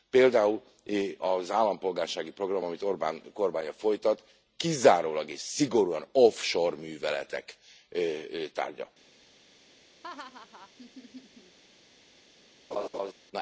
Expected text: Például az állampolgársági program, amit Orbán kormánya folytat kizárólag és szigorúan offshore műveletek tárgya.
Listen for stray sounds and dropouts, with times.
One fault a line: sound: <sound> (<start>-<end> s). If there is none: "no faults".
sound: laugh (10.0-11.6 s)
sound: laugh (12.7-13.1 s)